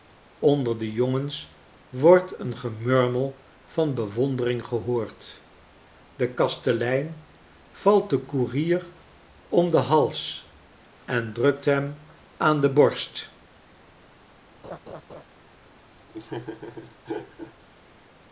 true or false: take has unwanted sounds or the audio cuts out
true